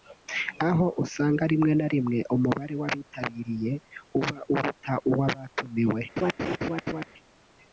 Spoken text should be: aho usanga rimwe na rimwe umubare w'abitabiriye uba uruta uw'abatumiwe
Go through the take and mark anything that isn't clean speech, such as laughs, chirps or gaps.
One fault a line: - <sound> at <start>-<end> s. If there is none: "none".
- laugh at 6.2-7.0 s